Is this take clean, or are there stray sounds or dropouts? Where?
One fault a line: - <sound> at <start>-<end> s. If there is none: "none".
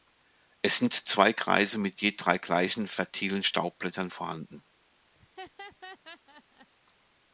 - laugh at 5.1-6.7 s